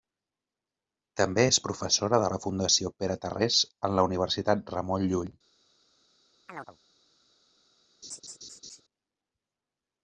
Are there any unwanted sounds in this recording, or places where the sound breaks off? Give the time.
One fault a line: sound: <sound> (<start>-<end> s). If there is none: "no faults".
sound: chirp (6.5-6.8 s)
sound: laugh (8.0-8.8 s)